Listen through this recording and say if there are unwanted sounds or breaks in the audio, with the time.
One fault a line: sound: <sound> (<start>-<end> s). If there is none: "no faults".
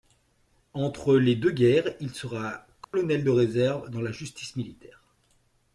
sound: dropout (2.8-2.9 s)